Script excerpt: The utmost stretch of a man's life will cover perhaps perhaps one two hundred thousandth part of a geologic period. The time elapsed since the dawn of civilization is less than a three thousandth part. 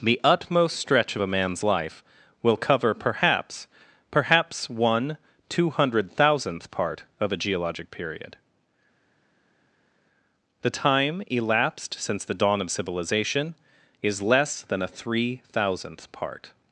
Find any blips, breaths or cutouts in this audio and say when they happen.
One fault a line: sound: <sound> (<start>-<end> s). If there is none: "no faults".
no faults